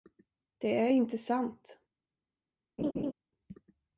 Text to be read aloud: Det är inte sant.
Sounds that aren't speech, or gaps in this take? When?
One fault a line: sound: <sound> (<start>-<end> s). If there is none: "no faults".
sound: laugh (2.8-3.1 s)